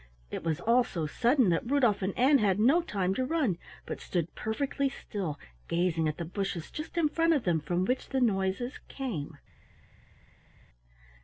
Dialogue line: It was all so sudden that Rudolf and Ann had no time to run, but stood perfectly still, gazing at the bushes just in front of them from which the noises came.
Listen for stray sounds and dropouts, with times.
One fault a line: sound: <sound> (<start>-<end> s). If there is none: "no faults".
no faults